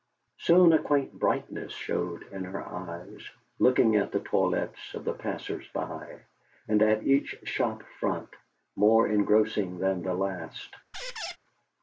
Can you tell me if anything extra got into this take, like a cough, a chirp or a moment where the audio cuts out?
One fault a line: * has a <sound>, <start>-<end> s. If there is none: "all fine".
* has a squeak, 10.9-11.4 s